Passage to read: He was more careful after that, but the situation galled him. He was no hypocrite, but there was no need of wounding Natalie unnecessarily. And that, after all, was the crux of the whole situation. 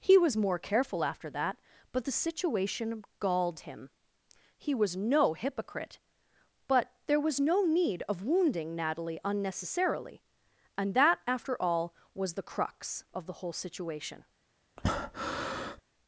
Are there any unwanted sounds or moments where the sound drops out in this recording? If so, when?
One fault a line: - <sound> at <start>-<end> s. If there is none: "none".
- breath at 14.8-15.8 s